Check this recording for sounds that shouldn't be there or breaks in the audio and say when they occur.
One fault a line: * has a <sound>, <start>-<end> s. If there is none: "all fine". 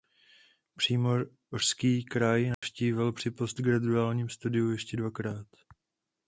* has a dropout, 2.5-2.6 s